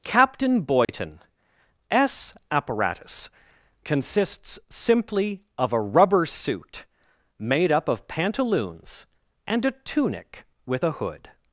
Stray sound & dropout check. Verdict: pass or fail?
fail